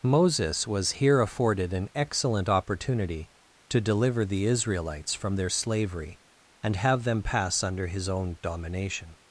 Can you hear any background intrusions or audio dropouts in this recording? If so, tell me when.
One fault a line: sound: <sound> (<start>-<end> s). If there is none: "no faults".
no faults